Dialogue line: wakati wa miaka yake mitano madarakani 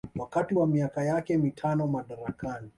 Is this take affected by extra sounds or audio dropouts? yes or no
no